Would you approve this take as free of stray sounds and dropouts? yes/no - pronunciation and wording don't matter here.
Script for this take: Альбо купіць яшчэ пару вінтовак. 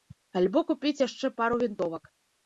yes